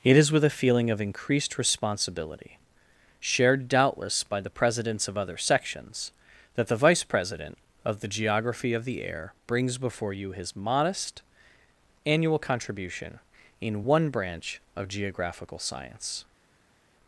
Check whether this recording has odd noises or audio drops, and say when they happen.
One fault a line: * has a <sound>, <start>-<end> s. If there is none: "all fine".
all fine